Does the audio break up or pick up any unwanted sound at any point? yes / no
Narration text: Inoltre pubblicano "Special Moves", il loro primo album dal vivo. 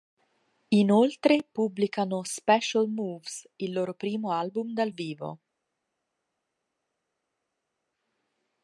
no